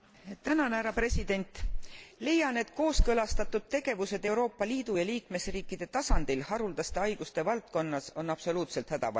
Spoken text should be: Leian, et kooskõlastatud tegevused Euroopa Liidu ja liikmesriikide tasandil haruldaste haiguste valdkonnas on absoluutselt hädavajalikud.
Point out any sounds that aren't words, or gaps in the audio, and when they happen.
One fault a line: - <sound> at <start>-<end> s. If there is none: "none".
none